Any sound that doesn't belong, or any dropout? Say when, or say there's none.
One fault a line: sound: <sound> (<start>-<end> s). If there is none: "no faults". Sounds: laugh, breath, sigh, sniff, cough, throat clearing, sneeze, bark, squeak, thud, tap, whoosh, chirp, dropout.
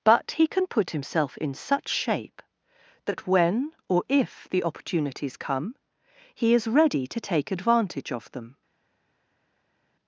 no faults